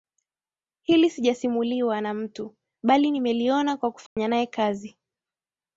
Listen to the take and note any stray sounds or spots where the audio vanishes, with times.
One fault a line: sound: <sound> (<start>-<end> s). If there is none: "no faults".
sound: dropout (4.1-4.2 s)